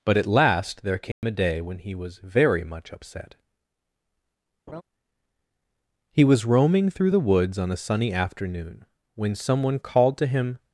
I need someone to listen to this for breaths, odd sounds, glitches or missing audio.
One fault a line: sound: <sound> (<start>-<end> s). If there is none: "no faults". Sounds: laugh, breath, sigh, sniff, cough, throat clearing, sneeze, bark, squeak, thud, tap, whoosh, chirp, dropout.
sound: dropout (1.1-1.2 s)
sound: laugh (4.7-4.8 s)